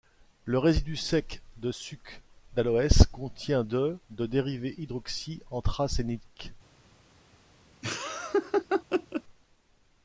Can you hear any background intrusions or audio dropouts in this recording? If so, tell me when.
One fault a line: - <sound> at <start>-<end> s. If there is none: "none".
- laugh at 7.8-9.2 s